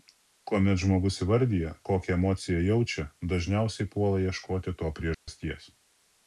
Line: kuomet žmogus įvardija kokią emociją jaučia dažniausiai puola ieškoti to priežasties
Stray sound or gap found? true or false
true